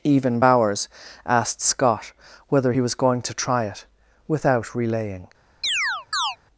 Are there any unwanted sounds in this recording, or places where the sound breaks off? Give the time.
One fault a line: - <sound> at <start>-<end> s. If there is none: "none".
- chirp at 5.6-6.4 s